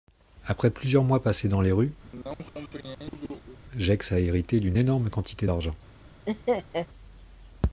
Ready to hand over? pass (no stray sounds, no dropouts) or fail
fail